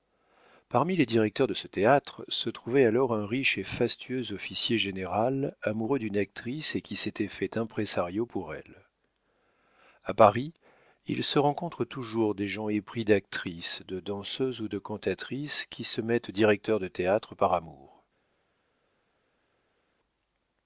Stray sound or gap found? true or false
false